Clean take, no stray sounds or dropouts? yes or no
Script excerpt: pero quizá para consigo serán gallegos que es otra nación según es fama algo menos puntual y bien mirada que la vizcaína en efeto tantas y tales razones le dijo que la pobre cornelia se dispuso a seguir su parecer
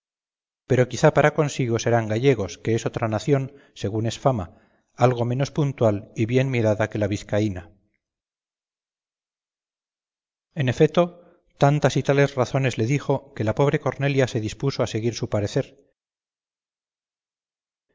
yes